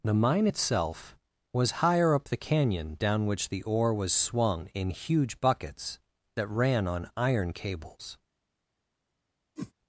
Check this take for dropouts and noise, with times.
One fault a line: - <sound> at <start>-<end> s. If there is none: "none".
- whoosh at 9.6-9.7 s